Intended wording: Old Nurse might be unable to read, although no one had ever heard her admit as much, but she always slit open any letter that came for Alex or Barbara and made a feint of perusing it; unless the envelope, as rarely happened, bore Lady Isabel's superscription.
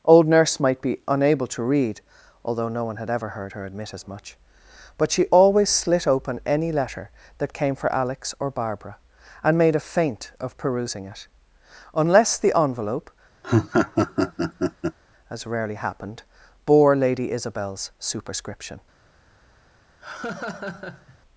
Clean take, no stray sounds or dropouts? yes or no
no